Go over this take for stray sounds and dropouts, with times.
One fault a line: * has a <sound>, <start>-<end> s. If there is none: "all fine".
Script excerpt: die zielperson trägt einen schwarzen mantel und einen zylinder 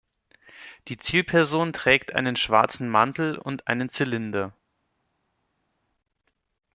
all fine